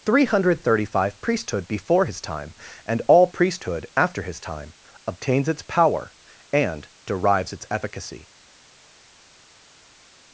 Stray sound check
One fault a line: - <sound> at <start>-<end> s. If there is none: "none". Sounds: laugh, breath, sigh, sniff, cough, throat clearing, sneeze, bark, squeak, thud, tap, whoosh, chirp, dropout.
none